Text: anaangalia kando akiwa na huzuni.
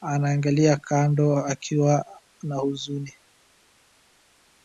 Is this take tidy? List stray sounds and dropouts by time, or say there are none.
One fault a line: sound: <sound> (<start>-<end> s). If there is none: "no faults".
no faults